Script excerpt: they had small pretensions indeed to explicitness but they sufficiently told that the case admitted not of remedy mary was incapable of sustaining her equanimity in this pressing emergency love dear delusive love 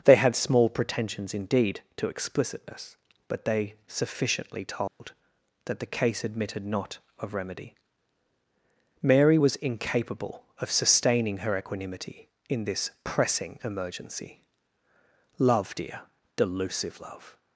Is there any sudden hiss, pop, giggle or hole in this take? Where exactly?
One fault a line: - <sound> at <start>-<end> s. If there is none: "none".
- dropout at 4.9-5.0 s